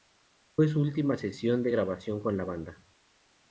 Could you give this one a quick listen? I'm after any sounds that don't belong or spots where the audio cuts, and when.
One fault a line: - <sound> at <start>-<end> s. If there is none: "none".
none